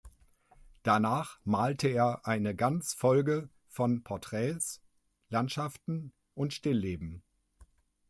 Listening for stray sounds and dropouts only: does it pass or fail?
pass